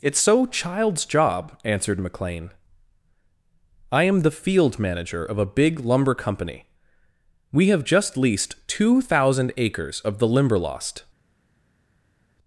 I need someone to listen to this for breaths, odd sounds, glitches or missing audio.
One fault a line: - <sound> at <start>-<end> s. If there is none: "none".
none